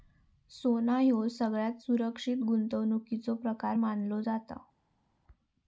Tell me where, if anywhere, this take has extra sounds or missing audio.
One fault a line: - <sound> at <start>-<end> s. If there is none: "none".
none